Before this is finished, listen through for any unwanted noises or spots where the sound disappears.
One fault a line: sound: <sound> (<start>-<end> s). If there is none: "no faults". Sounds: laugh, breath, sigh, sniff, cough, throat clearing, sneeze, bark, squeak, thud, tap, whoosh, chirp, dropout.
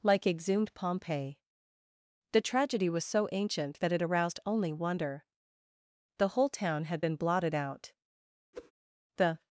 sound: whoosh (8.5-8.7 s)